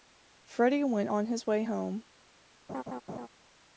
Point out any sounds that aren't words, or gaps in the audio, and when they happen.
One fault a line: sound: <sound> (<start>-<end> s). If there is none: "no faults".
sound: laugh (2.7-3.3 s)